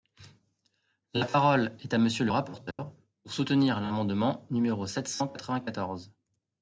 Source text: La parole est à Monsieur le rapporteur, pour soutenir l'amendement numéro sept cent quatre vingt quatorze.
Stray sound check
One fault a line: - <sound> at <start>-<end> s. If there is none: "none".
- dropout at 2.7-2.8 s